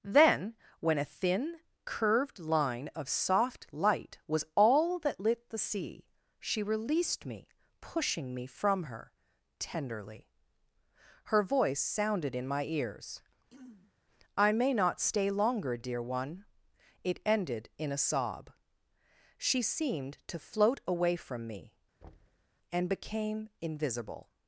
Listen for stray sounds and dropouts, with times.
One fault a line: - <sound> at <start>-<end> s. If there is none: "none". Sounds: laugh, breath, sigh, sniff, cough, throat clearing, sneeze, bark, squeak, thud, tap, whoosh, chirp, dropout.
- throat clearing at 13.5-13.9 s
- thud at 22.0-22.5 s